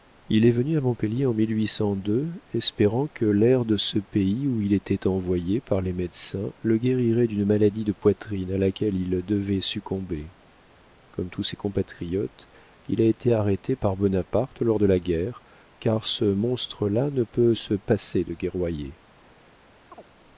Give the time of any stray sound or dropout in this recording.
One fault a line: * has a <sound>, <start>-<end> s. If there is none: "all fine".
* has a chirp, 19.9-20.1 s